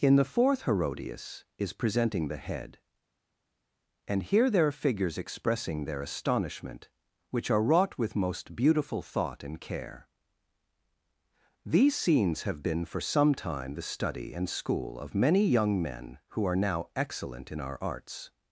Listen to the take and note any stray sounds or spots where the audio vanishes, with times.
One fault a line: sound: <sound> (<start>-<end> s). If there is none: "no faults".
no faults